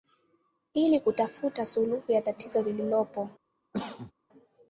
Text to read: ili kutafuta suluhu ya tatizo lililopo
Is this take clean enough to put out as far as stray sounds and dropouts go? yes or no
no